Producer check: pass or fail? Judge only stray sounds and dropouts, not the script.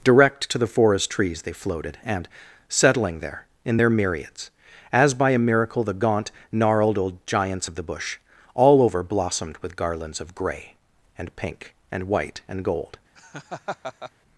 fail